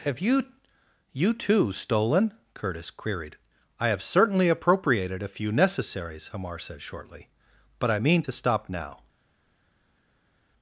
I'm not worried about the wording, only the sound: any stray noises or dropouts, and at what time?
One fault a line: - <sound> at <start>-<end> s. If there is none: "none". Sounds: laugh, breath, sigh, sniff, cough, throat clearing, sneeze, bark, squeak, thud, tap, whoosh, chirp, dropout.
none